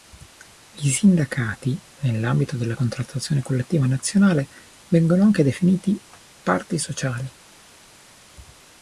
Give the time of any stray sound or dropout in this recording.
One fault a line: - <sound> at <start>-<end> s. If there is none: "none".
none